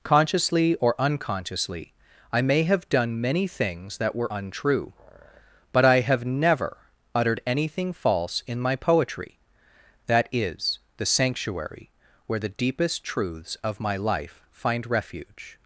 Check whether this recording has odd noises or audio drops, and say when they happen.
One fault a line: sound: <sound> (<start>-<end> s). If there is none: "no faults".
no faults